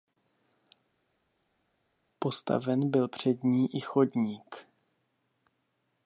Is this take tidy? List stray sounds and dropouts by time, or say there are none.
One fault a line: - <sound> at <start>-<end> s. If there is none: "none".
none